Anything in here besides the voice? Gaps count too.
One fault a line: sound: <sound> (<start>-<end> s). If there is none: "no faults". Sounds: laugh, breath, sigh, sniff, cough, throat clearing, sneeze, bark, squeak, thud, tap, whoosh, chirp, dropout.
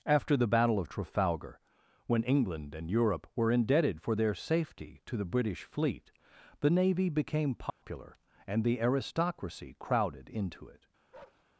sound: dropout (7.7-7.8 s)
sound: bark (11.1-11.5 s)